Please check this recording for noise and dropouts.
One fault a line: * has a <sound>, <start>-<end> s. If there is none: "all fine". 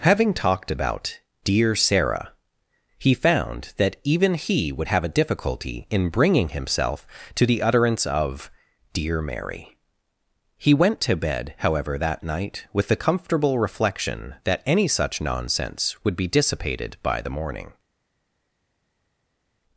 all fine